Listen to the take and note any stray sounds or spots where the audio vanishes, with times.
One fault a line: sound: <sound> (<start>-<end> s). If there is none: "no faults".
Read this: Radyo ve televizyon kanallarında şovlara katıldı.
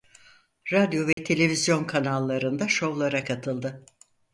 sound: dropout (1.1-1.2 s)